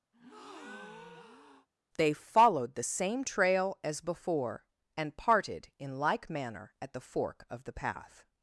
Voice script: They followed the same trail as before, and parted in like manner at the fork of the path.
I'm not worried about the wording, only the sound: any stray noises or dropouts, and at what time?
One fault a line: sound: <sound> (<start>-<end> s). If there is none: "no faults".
sound: breath (0.1-1.7 s)